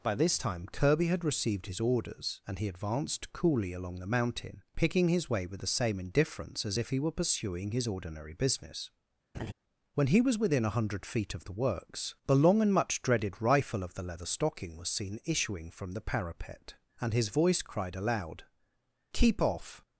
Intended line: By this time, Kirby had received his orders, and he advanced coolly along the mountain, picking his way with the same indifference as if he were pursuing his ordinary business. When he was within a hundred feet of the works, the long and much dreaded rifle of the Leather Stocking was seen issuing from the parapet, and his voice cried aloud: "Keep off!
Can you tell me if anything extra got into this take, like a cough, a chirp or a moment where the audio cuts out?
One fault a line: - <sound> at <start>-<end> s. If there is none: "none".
- laugh at 9.3-9.5 s